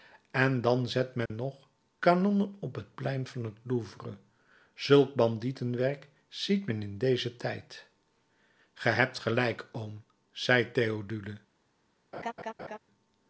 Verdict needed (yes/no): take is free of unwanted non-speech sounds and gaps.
no